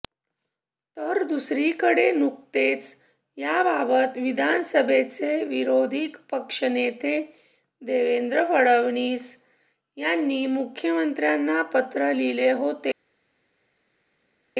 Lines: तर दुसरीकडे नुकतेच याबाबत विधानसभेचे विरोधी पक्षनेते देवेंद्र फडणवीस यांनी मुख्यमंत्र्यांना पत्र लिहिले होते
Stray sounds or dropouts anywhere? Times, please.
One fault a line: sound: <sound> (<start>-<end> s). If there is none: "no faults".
no faults